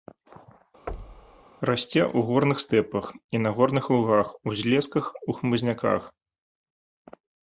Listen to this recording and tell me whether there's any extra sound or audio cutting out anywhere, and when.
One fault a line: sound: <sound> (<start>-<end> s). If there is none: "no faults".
sound: thud (0.9-1.4 s)